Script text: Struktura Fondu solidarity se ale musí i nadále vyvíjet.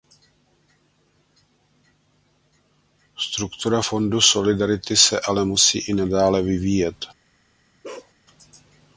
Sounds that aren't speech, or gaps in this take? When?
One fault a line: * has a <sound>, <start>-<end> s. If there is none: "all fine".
* has a bark, 7.8-8.1 s